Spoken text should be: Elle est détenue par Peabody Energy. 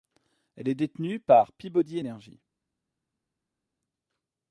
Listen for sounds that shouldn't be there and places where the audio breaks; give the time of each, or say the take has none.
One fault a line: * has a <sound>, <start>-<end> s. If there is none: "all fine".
all fine